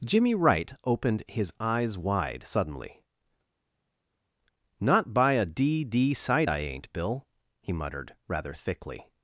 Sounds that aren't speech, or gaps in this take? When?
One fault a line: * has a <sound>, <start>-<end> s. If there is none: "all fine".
all fine